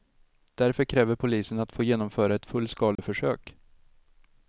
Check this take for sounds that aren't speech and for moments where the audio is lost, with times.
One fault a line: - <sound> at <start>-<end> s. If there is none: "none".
- dropout at 3.0-3.0 s